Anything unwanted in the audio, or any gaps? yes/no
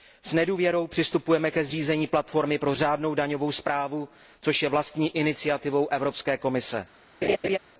yes